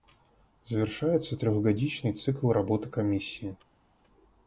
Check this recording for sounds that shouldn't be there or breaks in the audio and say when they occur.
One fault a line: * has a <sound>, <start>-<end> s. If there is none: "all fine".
all fine